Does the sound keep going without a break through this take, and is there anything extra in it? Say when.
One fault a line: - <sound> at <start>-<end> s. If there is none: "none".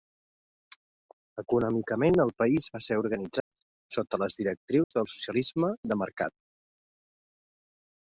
- dropout at 3.4-3.5 s
- dropout at 4.8-4.9 s